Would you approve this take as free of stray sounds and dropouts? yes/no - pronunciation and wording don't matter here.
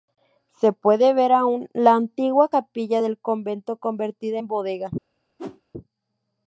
no